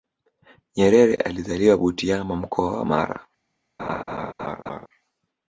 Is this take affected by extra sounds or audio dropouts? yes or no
yes